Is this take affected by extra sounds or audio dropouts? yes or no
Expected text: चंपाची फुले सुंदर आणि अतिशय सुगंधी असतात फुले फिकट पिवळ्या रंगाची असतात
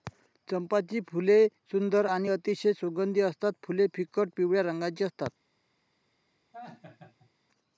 yes